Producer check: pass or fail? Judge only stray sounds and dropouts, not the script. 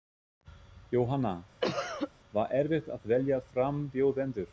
fail